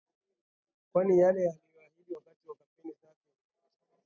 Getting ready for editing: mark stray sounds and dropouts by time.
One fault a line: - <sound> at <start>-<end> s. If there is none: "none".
none